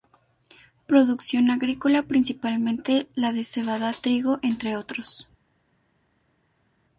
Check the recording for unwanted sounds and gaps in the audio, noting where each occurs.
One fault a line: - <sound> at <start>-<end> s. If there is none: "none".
none